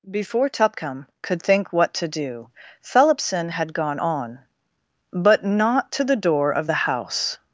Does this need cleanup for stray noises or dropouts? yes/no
no